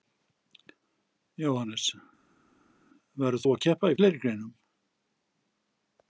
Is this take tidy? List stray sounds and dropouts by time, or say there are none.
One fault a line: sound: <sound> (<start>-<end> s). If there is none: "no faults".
no faults